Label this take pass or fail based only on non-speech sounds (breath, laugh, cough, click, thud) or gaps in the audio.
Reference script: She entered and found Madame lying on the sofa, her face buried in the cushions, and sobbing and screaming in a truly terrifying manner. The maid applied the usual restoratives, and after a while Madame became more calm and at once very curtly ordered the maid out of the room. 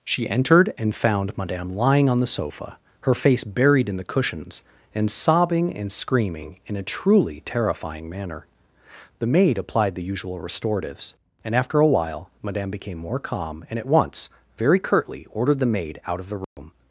fail